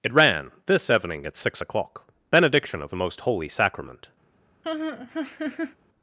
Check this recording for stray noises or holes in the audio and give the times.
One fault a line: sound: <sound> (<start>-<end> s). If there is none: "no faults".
sound: laugh (4.6-5.8 s)